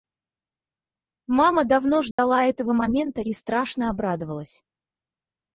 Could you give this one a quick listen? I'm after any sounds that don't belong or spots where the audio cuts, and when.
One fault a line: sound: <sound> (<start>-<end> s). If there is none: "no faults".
sound: dropout (2.1-2.2 s)